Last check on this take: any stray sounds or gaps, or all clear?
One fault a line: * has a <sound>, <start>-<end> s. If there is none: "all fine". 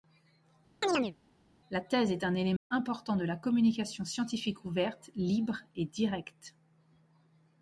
* has a chirp, 0.8-1.1 s
* has a dropout, 2.6-2.7 s